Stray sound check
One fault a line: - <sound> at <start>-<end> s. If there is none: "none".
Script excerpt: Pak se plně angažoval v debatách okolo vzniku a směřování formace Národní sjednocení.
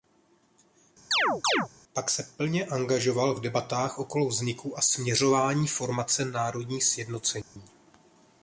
- chirp at 1.1-1.7 s
- dropout at 7.4-7.6 s